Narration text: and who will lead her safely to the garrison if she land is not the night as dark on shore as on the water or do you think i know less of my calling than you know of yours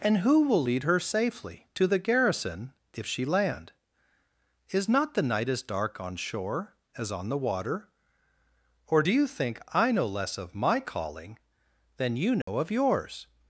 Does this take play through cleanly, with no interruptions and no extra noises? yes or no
no